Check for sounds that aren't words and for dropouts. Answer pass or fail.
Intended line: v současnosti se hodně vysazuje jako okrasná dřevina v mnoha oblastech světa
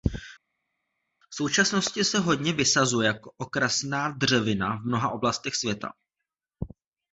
pass